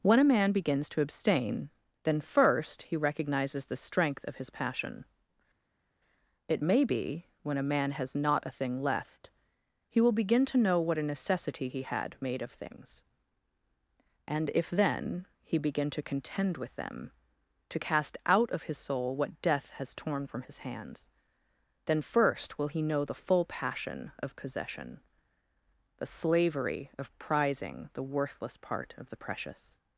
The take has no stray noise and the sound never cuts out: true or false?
true